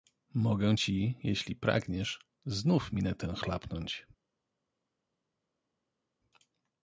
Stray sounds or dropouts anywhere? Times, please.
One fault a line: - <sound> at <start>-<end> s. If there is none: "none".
none